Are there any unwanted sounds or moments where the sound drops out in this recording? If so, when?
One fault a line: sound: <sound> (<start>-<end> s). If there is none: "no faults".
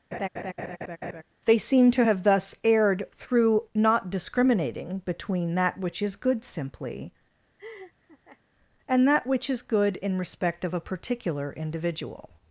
sound: laugh (0.1-1.2 s)
sound: laugh (7.6-8.4 s)